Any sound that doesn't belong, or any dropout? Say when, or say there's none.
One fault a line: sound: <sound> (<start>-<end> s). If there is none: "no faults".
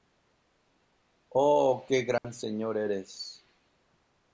sound: dropout (2.2-2.2 s)